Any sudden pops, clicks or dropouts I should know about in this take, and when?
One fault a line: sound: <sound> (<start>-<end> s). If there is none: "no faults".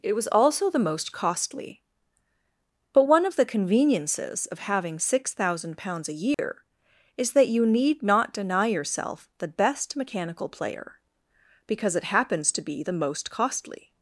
sound: dropout (6.3-6.4 s)